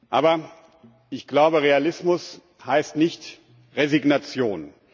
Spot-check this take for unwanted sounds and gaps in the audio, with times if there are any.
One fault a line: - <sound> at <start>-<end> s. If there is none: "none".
none